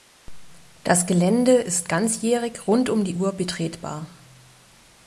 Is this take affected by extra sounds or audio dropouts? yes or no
no